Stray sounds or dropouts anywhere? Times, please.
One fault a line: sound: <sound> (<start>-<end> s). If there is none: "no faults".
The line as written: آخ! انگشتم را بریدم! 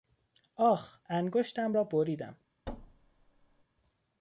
sound: thud (2.7-3.6 s)